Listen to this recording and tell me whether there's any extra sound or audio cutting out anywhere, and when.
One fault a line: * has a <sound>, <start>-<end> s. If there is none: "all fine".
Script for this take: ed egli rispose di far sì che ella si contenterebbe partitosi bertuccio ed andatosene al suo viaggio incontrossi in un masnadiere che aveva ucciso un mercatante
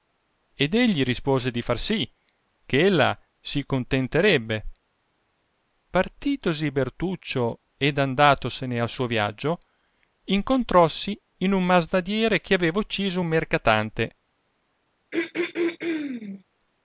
* has a throat clearing, 15.1-16.4 s